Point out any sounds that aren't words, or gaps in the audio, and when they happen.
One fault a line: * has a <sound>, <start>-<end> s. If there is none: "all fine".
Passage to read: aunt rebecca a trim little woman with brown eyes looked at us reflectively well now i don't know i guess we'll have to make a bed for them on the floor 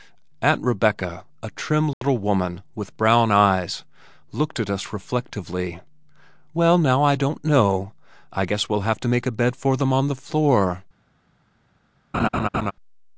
* has a dropout, 1.9-2.0 s
* has a laugh, 12.1-12.7 s